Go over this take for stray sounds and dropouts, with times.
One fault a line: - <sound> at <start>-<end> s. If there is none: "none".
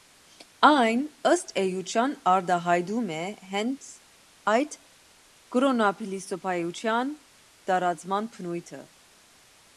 none